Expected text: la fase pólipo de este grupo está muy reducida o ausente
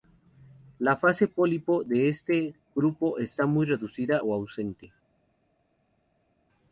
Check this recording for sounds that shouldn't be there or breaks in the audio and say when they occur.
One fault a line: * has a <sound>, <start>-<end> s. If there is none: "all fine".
all fine